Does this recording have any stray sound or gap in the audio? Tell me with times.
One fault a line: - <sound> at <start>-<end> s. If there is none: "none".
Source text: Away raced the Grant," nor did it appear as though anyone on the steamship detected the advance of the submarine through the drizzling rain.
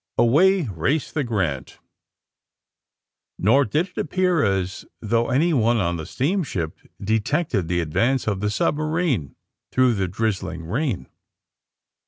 none